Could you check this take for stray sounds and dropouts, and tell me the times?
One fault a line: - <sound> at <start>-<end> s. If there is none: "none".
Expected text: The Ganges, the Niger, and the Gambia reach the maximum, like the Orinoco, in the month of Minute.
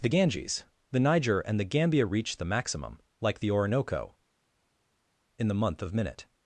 none